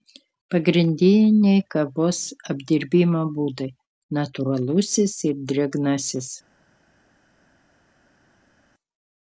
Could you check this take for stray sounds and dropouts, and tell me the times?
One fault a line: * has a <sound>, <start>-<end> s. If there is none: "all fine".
all fine